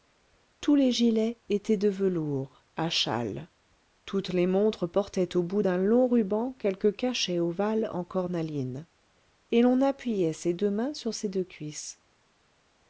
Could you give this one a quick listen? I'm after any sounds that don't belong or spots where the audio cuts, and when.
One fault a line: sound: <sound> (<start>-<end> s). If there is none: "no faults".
no faults